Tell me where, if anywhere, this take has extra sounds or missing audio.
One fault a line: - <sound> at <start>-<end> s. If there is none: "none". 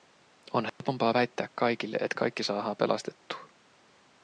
- dropout at 0.7-0.8 s